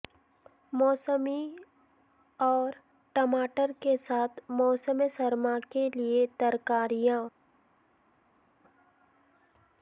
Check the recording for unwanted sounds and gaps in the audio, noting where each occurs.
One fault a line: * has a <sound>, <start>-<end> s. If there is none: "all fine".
all fine